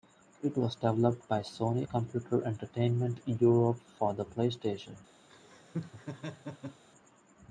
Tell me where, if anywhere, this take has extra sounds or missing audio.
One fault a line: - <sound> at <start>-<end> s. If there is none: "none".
- laugh at 5.3-6.8 s